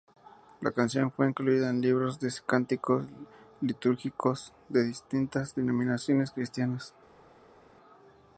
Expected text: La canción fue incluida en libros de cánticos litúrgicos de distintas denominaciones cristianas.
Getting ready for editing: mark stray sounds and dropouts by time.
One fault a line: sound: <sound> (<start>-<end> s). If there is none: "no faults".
no faults